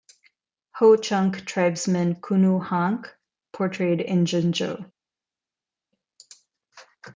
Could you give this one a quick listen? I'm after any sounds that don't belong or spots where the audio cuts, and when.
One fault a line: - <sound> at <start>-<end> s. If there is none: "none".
none